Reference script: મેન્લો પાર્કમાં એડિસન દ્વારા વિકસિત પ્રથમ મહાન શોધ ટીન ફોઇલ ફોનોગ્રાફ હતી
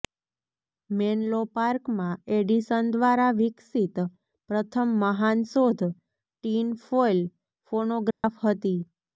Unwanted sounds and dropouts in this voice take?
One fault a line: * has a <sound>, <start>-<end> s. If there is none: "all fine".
* has a dropout, 8.1-8.2 s